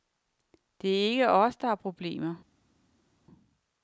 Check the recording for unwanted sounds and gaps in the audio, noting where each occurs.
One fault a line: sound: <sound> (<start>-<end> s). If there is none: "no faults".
no faults